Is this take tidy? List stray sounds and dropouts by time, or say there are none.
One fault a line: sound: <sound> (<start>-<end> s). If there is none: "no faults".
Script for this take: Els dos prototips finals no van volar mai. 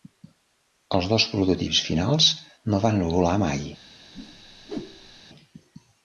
sound: whoosh (4.1-5.2 s)